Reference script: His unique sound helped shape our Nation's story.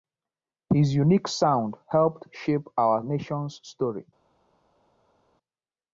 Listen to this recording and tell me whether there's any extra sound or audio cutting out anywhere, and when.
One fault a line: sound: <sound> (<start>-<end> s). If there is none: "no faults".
no faults